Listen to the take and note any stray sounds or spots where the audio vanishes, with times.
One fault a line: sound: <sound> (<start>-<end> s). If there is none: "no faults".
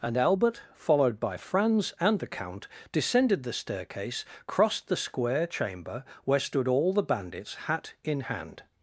no faults